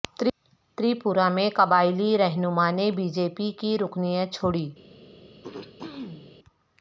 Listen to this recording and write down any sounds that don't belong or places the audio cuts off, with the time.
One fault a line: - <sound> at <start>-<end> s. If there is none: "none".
- throat clearing at 5.4-6.3 s